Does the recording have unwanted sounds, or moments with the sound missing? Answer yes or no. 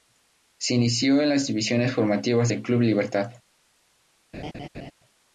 yes